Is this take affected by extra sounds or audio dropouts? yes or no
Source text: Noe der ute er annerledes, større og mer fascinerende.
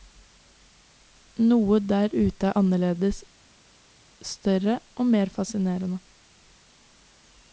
no